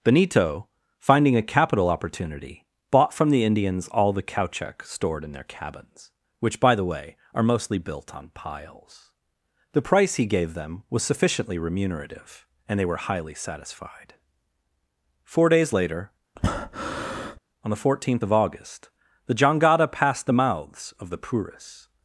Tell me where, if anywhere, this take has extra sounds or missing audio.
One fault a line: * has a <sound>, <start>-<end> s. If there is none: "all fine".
* has a breath, 16.4-17.4 s